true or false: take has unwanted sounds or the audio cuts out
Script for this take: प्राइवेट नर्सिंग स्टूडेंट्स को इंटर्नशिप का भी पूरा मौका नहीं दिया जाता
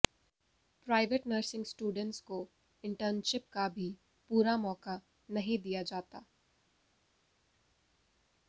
false